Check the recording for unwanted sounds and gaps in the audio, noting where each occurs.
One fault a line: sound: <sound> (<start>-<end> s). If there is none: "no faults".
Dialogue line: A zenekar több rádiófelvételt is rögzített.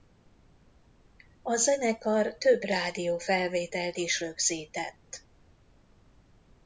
no faults